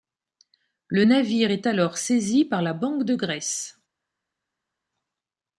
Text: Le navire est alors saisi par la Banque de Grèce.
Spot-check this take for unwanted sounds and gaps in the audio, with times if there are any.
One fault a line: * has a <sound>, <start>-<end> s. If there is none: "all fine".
all fine